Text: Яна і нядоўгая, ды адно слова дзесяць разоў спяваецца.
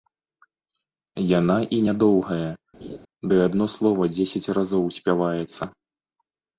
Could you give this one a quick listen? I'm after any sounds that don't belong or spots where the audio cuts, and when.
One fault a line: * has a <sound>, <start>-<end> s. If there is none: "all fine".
* has a laugh, 2.8-3.0 s